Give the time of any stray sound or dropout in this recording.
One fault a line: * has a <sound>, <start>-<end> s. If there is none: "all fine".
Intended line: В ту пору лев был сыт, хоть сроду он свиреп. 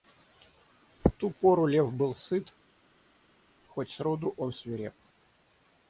all fine